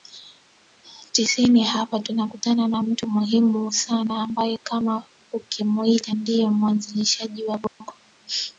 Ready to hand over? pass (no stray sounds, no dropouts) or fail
fail